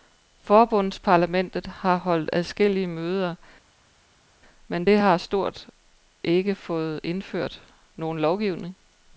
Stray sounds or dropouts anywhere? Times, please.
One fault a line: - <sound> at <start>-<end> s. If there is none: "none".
none